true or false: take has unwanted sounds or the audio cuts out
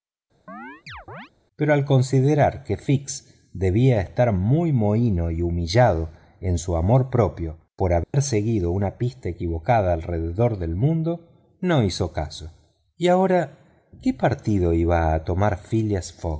true